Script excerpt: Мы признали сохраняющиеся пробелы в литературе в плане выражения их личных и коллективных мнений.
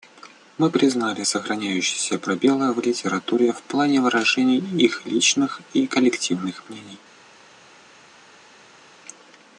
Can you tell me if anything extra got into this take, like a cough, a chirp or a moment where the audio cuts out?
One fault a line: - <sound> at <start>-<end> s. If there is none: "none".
none